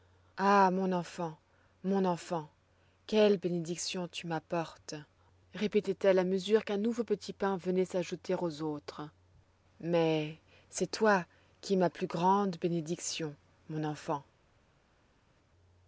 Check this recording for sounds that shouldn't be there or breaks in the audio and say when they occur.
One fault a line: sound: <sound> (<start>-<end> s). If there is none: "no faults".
no faults